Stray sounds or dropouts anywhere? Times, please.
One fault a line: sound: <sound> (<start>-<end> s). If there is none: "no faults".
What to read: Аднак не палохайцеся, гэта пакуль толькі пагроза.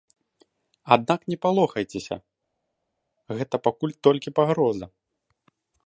no faults